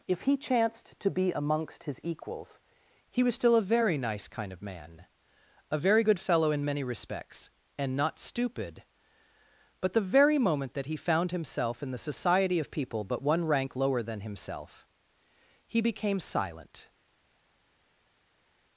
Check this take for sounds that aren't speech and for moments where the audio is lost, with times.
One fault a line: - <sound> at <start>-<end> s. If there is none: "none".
none